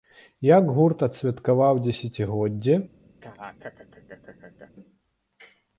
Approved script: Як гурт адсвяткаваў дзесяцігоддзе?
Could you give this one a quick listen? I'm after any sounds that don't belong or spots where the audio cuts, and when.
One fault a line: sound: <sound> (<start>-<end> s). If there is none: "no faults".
sound: laugh (3.2-4.7 s)